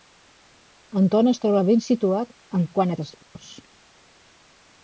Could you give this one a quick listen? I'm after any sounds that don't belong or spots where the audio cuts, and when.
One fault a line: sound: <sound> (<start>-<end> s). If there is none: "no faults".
sound: dropout (3.2-3.3 s)